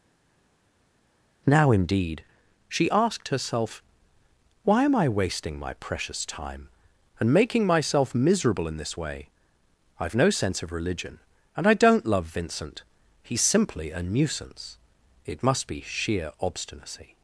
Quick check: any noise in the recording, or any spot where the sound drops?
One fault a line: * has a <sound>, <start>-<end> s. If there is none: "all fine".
all fine